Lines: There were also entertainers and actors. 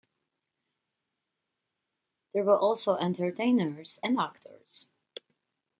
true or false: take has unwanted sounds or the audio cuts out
false